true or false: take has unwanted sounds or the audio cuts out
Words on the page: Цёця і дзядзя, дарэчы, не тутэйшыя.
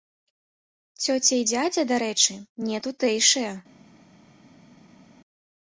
false